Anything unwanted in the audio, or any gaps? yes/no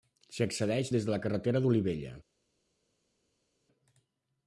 no